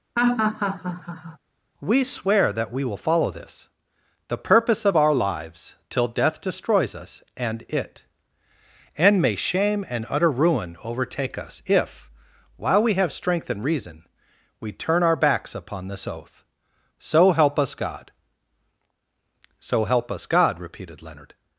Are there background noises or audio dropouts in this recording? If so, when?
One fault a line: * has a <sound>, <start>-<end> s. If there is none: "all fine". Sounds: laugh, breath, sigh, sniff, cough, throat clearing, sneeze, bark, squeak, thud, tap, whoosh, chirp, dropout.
* has a laugh, 0.2-1.4 s